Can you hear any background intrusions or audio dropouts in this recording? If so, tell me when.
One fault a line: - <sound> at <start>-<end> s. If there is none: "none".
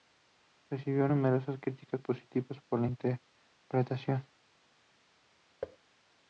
- thud at 5.6-5.8 s